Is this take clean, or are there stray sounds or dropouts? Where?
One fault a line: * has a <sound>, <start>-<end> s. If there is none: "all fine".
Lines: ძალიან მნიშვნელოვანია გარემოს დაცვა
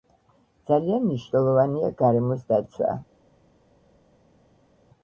all fine